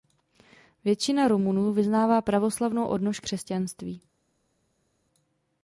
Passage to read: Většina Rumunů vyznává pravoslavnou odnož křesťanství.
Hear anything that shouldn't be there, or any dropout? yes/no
no